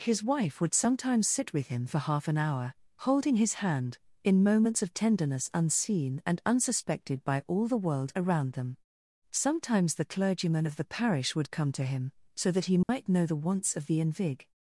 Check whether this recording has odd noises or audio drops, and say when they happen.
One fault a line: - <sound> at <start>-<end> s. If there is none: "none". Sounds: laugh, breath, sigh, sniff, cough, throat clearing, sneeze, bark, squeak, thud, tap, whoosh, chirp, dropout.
- dropout at 12.8-12.9 s